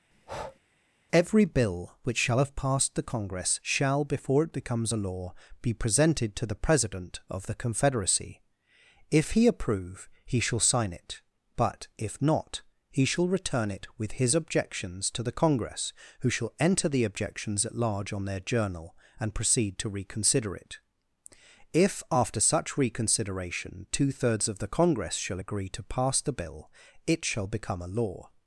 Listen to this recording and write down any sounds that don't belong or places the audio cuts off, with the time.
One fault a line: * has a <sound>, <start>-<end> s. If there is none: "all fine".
* has a breath, 0.1-0.6 s